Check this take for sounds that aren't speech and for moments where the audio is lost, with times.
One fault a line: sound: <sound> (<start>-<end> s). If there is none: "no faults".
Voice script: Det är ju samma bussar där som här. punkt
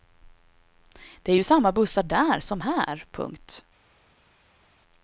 no faults